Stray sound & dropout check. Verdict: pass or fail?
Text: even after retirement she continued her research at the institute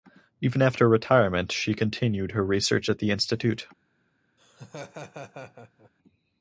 fail